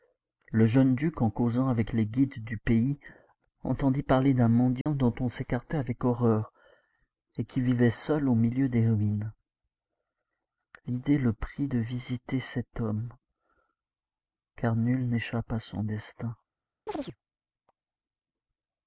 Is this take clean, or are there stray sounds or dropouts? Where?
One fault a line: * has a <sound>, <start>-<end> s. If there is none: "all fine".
* has a dropout, 4.8-4.9 s
* has a chirp, 16.9-17.2 s